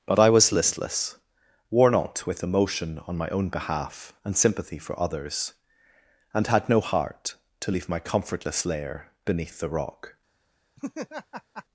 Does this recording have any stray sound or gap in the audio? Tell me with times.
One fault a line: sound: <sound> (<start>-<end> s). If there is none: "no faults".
sound: laugh (10.8-11.6 s)